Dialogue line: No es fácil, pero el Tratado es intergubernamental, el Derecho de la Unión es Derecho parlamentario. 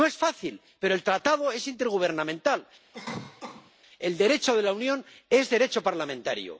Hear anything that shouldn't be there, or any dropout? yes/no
yes